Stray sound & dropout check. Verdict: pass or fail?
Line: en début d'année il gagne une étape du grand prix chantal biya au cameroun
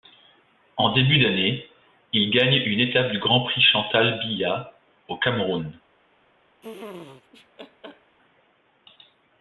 fail